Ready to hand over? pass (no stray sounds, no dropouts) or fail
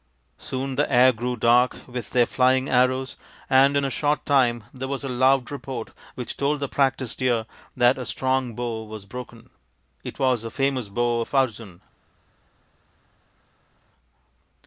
pass